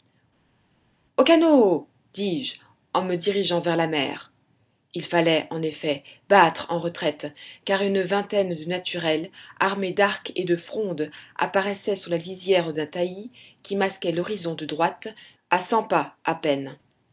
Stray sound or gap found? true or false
false